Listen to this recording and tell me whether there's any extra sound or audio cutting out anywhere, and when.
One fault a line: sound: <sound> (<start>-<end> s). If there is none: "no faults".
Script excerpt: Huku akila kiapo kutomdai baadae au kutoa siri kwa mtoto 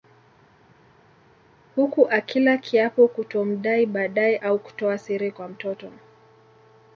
no faults